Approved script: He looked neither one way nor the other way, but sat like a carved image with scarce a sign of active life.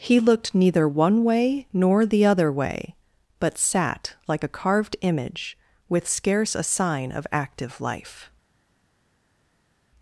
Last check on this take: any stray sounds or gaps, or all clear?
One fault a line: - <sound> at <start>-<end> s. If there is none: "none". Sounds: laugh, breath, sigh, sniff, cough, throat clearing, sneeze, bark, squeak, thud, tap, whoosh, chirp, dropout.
none